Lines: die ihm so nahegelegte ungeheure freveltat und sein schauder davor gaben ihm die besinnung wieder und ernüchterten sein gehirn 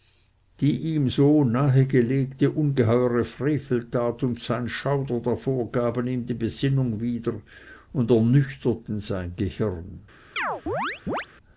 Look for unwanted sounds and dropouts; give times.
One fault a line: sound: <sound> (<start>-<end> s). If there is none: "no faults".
sound: chirp (10.4-11.3 s)